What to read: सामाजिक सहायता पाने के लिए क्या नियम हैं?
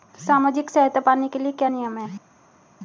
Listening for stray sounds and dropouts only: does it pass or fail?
pass